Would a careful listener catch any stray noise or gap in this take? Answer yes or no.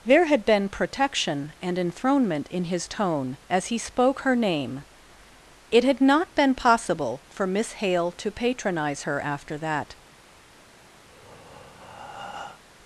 yes